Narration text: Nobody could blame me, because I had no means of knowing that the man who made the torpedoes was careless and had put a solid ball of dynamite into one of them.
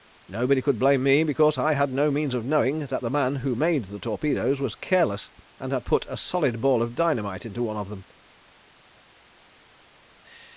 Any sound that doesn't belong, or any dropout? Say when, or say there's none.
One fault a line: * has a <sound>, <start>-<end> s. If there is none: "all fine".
all fine